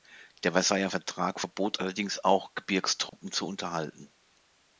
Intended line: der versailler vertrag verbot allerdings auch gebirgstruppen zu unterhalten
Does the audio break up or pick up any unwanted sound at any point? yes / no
yes